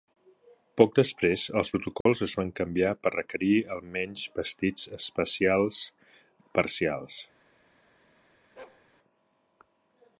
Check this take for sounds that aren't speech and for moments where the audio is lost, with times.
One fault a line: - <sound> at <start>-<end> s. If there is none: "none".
- dropout at 2.0-2.1 s
- bark at 8.6-8.8 s